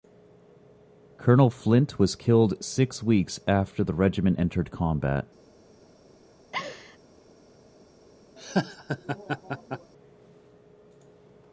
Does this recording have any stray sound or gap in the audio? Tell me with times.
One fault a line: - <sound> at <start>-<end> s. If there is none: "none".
- laugh at 6.5-7.0 s
- laugh at 8.4-9.9 s